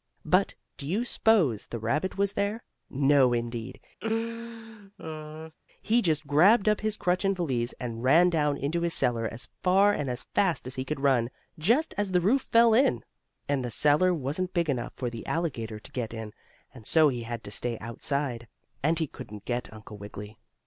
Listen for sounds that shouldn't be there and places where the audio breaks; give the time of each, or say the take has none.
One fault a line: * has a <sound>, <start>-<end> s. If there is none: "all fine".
* has a laugh, 4.0-5.5 s